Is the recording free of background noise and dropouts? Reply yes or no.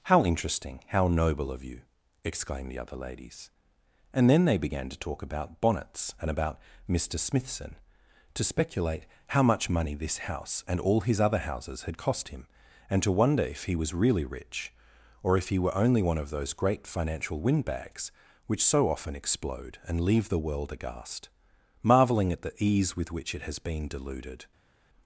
yes